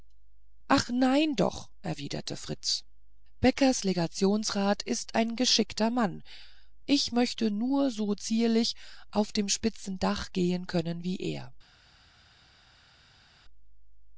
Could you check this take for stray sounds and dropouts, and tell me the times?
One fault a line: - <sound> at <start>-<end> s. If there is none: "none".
none